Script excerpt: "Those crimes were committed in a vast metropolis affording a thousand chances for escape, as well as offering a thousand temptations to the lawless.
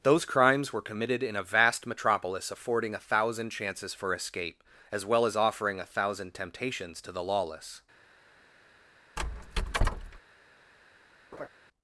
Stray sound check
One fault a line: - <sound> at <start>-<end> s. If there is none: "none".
- squeak at 9.2-10.2 s
- laugh at 11.3-11.5 s